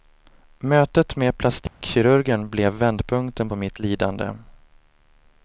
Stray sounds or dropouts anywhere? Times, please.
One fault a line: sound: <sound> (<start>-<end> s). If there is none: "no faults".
sound: dropout (1.7-1.8 s)